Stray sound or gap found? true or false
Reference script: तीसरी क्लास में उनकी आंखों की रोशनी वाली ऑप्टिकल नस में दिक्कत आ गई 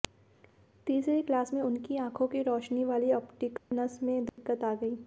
true